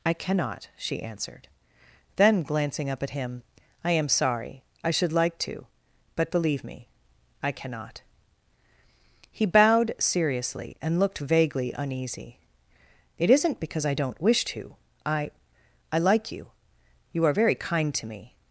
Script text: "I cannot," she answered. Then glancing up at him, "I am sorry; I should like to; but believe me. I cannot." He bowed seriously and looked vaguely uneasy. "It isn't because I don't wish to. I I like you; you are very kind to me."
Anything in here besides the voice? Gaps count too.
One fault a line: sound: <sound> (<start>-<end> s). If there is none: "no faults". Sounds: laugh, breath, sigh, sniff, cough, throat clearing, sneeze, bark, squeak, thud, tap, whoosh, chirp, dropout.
no faults